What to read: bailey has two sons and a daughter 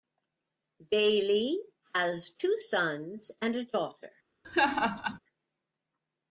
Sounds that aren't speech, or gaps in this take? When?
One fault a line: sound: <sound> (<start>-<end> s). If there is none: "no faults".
sound: laugh (4.4-5.2 s)